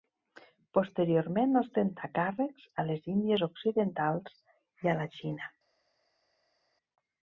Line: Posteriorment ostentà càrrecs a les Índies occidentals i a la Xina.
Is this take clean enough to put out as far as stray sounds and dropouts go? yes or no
yes